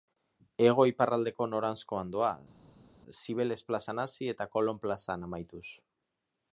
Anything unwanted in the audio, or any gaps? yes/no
no